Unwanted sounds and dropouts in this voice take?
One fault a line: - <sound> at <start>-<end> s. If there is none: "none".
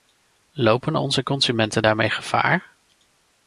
none